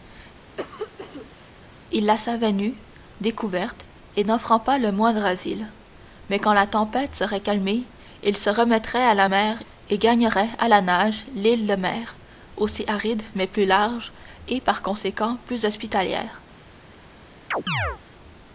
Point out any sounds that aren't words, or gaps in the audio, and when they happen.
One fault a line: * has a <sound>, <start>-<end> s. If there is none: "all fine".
* has a cough, 0.6-1.5 s
* has a chirp, 17.5-18.0 s